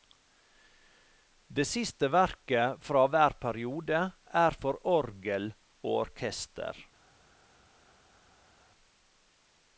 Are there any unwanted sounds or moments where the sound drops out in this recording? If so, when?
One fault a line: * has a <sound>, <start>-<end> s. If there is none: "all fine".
all fine